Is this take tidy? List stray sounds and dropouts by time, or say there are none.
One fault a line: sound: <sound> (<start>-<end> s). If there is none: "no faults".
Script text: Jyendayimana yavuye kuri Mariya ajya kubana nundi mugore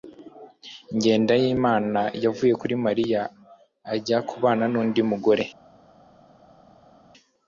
no faults